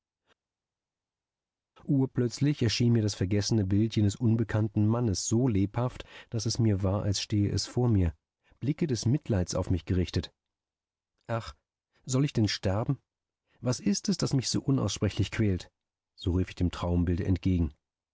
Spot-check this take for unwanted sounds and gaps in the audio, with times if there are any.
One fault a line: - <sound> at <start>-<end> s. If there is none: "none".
none